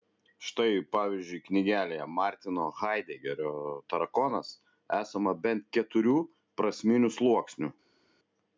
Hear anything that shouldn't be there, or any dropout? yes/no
no